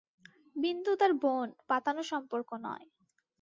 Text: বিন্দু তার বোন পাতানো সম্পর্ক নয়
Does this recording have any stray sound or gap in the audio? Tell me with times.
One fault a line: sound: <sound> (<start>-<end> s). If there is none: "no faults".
no faults